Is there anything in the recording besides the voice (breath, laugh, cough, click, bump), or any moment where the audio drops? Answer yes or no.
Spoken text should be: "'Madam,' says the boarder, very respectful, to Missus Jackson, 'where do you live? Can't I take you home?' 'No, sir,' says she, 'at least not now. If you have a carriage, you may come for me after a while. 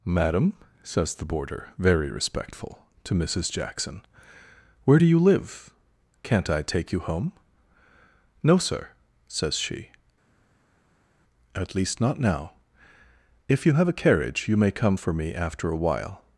no